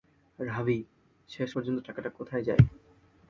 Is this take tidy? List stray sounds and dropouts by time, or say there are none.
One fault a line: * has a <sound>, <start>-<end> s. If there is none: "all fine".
all fine